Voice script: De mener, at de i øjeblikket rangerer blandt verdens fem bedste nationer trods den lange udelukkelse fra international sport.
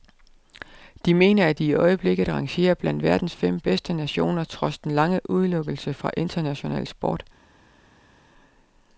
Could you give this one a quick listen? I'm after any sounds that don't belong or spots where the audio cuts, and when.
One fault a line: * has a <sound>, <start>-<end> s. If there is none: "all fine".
all fine